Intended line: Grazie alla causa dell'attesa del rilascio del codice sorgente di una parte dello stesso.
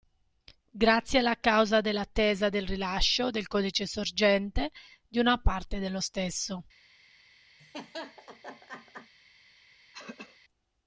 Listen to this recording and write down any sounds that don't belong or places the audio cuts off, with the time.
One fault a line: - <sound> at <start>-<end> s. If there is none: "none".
- laugh at 7.6-9.1 s
- throat clearing at 9.9-10.4 s